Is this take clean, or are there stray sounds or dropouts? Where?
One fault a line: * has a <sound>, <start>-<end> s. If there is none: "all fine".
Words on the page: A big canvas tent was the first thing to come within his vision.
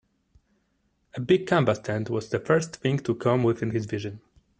all fine